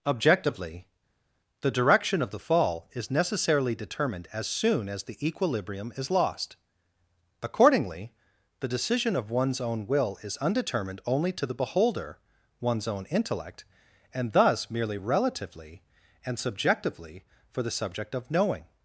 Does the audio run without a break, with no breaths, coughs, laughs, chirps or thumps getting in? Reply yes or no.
yes